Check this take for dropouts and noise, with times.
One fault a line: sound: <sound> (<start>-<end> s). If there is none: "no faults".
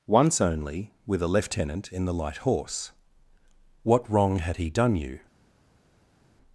no faults